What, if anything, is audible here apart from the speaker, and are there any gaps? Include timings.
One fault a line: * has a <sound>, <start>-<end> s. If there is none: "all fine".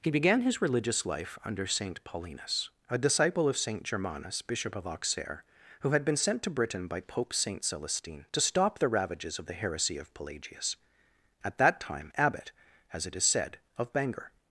all fine